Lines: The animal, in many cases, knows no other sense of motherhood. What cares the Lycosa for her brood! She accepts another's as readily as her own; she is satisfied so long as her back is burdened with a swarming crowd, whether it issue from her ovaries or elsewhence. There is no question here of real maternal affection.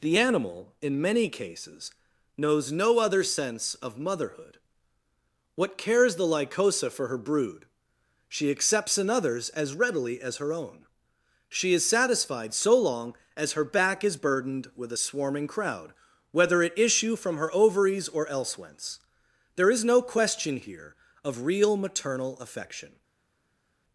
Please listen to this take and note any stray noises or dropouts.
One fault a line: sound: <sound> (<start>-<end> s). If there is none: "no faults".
no faults